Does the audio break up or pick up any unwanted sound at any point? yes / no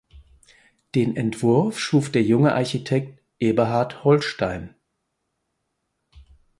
no